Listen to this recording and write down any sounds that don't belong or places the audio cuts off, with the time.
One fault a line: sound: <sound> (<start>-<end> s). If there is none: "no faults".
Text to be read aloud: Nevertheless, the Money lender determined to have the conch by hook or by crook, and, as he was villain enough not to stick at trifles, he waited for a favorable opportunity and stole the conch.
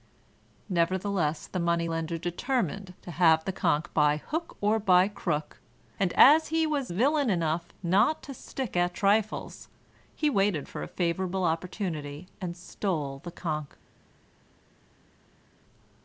no faults